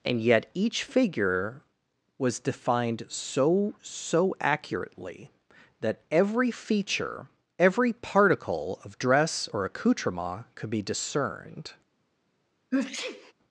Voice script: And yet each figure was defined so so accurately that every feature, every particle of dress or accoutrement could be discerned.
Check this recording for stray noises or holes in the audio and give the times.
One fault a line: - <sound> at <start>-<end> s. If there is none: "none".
- sneeze at 12.7-13.3 s